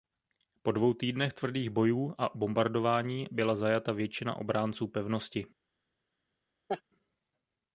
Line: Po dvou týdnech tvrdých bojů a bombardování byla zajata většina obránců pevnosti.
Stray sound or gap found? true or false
true